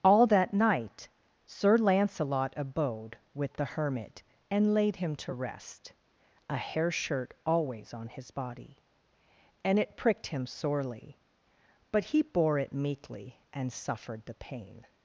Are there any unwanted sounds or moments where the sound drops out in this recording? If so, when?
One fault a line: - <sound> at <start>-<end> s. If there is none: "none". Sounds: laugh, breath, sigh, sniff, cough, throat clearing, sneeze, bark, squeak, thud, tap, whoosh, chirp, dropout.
none